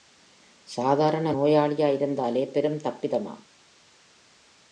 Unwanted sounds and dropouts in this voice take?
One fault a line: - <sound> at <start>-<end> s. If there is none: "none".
none